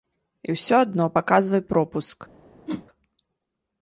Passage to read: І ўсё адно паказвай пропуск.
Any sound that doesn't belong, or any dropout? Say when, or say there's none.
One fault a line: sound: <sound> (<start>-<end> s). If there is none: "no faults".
sound: whoosh (2.7-2.9 s)